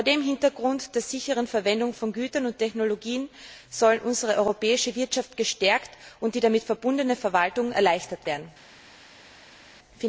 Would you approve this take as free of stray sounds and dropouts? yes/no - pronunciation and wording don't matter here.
yes